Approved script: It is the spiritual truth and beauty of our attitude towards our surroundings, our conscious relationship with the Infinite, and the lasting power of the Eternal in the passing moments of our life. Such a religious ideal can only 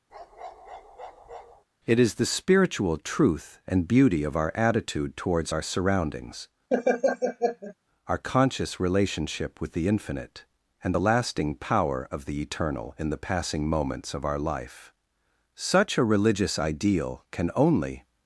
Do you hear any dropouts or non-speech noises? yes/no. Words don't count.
yes